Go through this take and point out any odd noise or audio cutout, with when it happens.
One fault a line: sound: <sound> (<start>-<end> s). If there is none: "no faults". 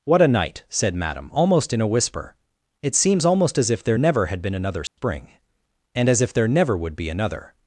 sound: dropout (4.9-5.0 s)